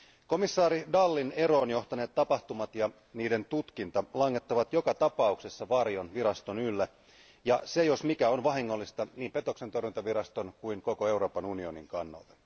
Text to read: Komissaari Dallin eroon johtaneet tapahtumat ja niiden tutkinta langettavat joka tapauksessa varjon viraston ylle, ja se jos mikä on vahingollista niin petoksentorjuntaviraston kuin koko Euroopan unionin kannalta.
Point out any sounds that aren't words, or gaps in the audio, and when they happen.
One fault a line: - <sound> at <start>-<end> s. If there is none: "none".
none